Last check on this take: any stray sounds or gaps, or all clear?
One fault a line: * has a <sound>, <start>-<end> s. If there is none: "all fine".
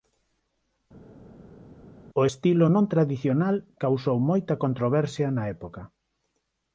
all fine